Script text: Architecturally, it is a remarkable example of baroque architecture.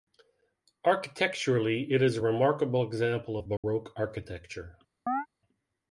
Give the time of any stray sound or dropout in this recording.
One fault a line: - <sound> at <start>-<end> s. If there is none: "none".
- dropout at 3.6-3.6 s
- chirp at 5.1-5.3 s